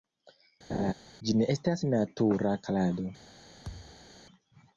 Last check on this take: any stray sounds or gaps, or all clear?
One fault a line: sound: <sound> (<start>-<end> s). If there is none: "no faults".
sound: laugh (0.7-0.9 s)
sound: thud (3.6-4.1 s)